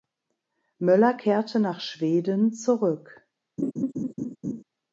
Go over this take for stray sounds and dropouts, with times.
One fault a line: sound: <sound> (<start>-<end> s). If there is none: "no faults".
sound: laugh (3.6-4.6 s)